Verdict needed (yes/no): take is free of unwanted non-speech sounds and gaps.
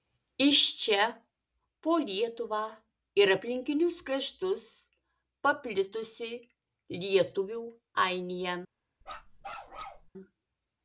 no